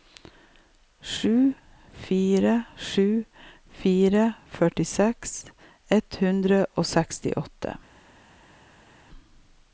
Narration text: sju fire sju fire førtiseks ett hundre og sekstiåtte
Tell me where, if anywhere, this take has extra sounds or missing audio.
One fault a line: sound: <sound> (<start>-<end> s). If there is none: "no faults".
no faults